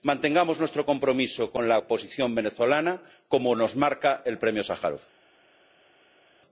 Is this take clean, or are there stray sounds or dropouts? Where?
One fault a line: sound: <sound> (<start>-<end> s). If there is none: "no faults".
no faults